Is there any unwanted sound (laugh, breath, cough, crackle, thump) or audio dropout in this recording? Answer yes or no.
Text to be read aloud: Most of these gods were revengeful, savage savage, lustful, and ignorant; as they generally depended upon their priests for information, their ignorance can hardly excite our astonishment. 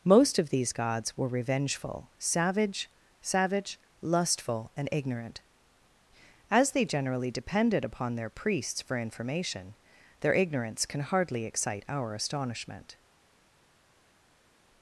no